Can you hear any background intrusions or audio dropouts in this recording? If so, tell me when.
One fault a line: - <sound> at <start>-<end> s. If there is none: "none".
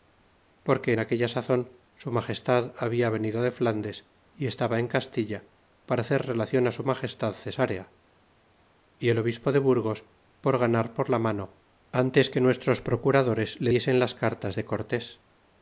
none